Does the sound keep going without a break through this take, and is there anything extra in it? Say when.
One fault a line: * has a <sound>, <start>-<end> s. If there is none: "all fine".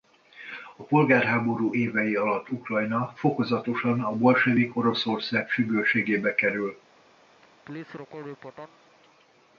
* has a laugh, 7.4-8.8 s